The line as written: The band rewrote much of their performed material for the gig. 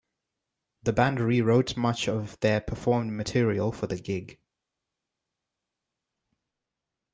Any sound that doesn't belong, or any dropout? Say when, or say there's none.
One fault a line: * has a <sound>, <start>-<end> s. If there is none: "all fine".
all fine